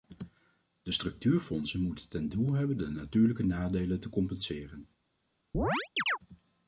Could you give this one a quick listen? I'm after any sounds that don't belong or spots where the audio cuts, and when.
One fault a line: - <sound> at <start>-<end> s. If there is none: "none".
- chirp at 5.5-6.2 s